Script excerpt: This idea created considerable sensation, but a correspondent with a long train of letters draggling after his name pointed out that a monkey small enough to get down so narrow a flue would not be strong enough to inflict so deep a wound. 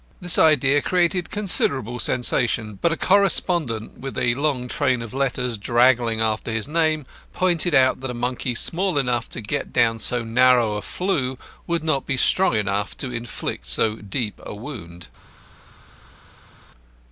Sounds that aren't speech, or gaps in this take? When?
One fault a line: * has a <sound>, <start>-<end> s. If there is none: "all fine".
all fine